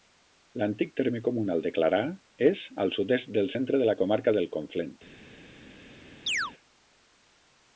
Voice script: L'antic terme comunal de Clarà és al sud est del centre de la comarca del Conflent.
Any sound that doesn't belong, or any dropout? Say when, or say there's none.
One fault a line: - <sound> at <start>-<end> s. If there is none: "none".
- chirp at 6.3-6.5 s